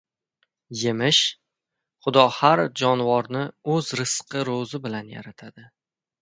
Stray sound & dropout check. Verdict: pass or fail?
pass